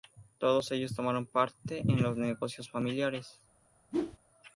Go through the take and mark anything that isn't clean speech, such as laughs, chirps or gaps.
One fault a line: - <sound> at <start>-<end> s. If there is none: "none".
- whoosh at 3.9-4.2 s